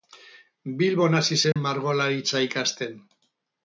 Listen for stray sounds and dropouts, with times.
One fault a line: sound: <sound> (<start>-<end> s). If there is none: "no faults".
sound: dropout (1.5-1.6 s)